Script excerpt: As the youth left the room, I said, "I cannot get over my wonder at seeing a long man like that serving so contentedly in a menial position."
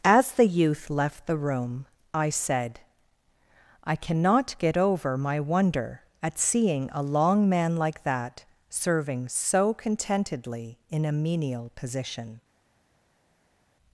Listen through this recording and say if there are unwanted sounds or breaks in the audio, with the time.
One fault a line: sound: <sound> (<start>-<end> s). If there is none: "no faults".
no faults